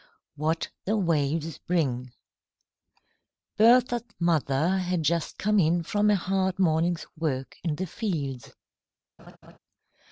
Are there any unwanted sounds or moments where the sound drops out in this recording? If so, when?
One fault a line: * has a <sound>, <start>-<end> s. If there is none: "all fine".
* has a laugh, 9.2-9.6 s